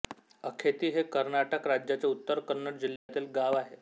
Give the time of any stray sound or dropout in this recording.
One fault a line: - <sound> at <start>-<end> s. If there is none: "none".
- dropout at 3.0-3.1 s